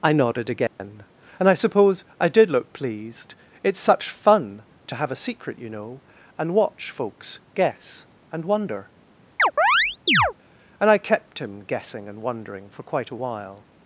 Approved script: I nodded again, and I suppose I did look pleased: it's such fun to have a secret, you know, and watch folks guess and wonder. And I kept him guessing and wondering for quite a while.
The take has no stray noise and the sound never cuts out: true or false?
false